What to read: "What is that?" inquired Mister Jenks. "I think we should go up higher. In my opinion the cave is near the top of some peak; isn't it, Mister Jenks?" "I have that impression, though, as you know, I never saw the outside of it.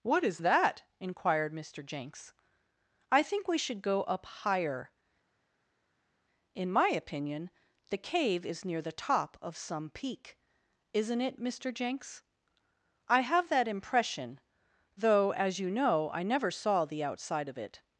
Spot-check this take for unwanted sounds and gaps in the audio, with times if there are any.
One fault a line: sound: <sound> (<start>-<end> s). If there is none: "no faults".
no faults